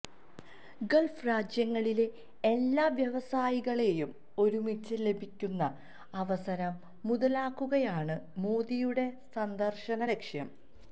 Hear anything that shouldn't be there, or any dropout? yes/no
no